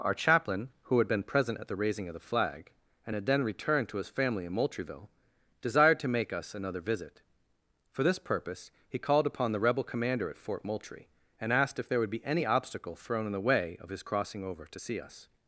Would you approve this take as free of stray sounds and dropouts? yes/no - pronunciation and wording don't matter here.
yes